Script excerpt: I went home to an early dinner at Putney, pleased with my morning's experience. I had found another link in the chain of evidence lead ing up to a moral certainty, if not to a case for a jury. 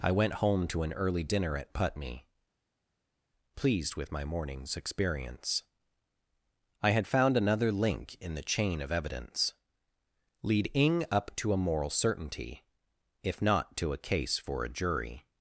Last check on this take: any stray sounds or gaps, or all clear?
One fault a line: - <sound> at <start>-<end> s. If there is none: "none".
none